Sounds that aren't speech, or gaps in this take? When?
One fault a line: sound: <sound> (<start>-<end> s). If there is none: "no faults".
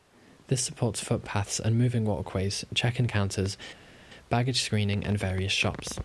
no faults